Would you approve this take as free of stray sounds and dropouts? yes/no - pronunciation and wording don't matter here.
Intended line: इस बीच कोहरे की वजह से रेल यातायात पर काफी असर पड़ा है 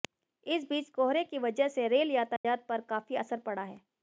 no